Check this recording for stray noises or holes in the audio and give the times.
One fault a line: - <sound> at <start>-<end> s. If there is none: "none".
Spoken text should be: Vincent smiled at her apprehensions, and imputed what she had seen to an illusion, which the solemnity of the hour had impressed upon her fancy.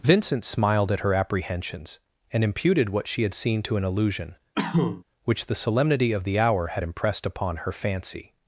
- cough at 4.5-5.0 s